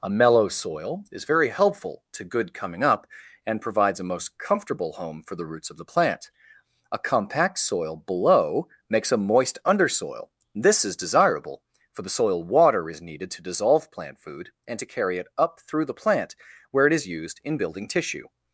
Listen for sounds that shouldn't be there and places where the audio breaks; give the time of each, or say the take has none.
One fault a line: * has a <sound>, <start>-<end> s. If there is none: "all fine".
all fine